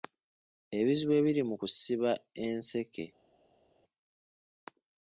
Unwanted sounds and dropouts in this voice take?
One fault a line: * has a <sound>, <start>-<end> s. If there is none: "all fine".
all fine